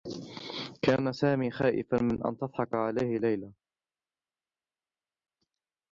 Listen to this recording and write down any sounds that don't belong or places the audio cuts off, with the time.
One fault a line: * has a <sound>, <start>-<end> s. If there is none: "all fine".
all fine